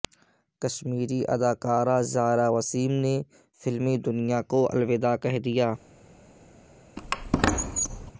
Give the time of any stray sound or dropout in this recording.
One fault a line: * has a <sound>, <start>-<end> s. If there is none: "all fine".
* has a squeak, 7.0-8.1 s